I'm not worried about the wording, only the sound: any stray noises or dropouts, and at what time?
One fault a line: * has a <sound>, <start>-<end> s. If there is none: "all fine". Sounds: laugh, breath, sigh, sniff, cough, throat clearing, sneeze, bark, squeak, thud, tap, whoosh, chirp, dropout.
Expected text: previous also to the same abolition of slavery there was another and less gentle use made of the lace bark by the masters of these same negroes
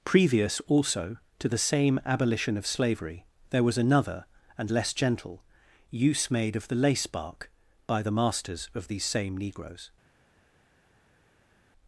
all fine